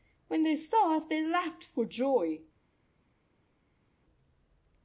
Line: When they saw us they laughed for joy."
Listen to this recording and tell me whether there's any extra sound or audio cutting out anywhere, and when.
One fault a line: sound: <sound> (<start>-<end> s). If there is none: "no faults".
no faults